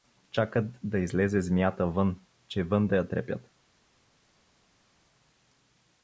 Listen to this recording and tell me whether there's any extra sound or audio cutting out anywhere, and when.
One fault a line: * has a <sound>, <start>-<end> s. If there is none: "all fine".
all fine